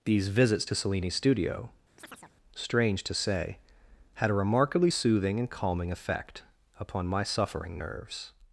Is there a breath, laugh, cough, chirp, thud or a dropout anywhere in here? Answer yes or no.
yes